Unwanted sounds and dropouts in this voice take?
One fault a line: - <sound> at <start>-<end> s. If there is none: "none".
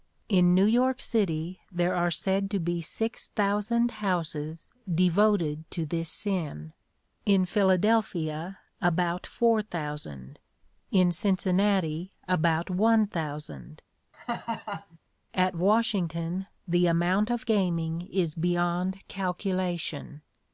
- laugh at 14.1-15.0 s